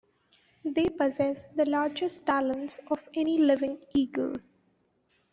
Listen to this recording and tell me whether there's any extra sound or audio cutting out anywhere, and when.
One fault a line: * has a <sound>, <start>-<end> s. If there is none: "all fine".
all fine